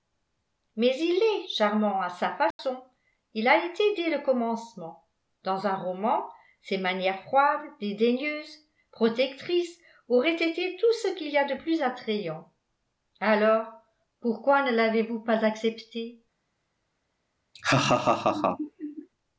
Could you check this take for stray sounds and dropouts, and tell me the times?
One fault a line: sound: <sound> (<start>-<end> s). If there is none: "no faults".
sound: dropout (2.5-2.6 s)
sound: laugh (17.5-19.1 s)